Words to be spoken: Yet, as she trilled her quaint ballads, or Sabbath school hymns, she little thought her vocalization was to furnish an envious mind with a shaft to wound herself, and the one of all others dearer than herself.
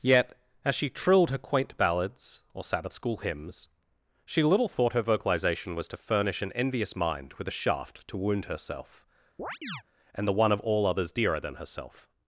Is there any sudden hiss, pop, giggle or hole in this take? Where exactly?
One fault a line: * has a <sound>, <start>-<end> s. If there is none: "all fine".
* has a chirp, 9.4-9.8 s